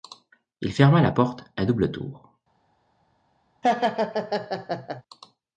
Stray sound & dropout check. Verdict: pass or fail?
fail